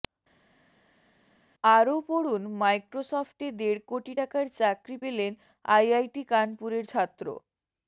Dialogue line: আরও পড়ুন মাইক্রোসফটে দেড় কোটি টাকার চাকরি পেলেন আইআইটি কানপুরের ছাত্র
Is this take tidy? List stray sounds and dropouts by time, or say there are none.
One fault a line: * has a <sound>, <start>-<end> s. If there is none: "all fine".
all fine